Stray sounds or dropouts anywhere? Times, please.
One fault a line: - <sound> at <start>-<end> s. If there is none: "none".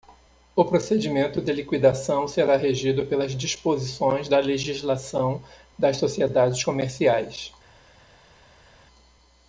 none